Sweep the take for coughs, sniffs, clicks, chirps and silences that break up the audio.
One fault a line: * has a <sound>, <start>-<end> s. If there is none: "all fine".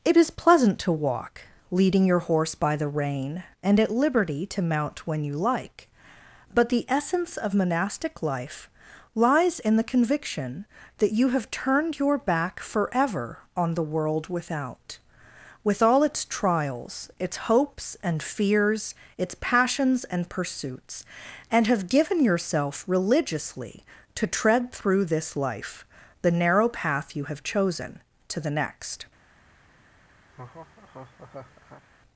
* has a laugh, 30.3-31.8 s